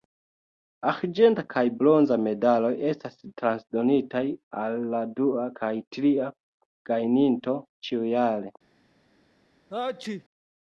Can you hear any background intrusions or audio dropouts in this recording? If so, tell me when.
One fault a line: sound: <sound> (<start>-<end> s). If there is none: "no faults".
sound: sneeze (9.7-10.2 s)